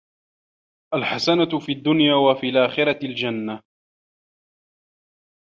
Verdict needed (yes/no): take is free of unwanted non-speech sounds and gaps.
yes